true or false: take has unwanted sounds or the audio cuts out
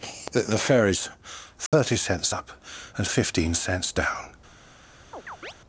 true